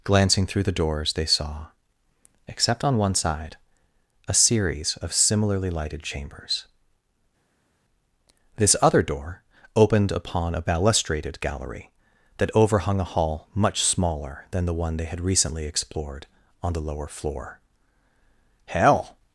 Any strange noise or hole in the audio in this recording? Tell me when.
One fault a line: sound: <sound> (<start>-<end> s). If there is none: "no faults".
no faults